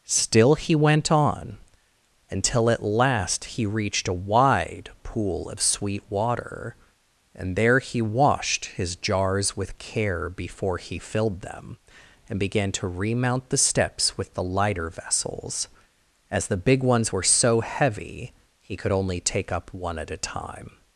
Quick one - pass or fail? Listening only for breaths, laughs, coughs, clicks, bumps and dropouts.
pass